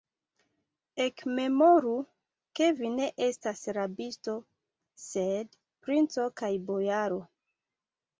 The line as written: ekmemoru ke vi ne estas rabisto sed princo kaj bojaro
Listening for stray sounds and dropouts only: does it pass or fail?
pass